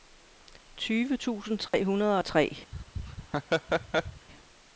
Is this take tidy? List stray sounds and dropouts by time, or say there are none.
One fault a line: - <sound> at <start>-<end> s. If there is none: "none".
- dropout at 1.7-1.7 s
- laugh at 2.7-4.3 s